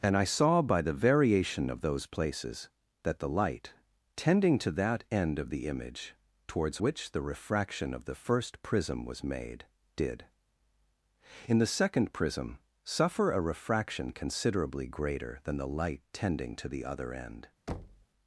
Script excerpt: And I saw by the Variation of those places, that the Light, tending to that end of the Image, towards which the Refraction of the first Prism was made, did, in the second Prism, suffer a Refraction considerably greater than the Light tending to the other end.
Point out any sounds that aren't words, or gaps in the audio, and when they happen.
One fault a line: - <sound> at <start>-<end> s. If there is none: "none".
- thud at 17.7-18.1 s